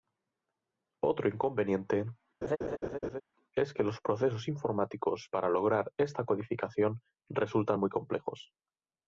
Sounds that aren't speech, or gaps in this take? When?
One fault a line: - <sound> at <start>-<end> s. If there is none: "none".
- laugh at 2.4-3.2 s